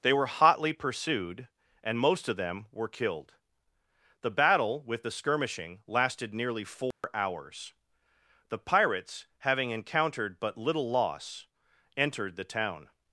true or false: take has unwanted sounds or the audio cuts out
true